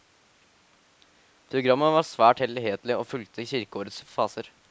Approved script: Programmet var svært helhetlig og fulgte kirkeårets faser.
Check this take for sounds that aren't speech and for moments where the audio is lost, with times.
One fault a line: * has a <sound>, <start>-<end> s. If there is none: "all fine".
all fine